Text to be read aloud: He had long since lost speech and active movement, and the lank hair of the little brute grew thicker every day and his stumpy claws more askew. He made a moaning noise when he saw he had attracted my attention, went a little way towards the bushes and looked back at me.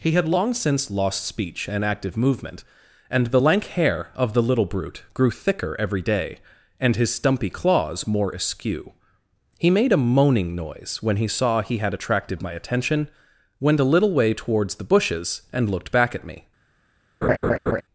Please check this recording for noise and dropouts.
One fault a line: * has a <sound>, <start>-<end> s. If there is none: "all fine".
* has a laugh, 17.2-17.8 s